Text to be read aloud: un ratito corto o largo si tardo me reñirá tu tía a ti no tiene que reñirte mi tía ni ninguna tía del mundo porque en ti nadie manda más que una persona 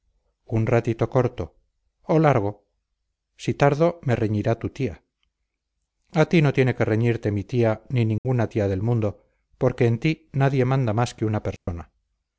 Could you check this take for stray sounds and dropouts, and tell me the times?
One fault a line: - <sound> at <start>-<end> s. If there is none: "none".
- dropout at 8.2-8.3 s
- dropout at 11.6-11.7 s